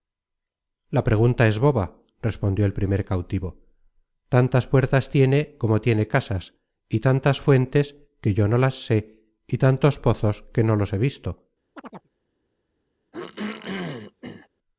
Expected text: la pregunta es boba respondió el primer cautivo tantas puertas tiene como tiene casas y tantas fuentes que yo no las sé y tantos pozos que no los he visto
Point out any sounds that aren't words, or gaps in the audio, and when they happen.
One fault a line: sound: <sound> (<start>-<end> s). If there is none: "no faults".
sound: chirp (11.7-12.1 s)
sound: throat clearing (13.1-14.5 s)